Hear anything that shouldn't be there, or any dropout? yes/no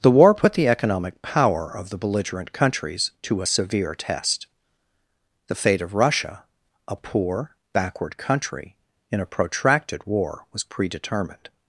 no